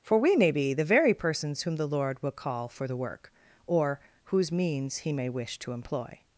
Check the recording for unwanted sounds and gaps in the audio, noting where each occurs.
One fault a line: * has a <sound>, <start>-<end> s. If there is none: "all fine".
all fine